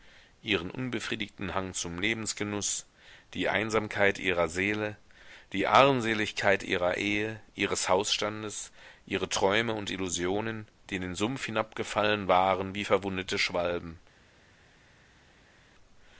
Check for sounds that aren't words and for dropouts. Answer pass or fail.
pass